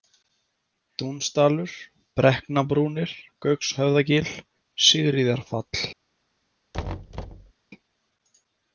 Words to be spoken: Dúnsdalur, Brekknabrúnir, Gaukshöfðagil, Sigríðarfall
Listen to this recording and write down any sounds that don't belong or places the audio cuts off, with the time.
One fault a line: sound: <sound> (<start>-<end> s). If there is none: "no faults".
sound: thud (6.7-7.5 s)